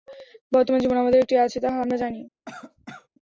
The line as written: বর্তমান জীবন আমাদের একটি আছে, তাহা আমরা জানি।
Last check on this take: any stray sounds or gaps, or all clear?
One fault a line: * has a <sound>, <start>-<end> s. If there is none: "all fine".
* has a cough, 2.5-3.1 s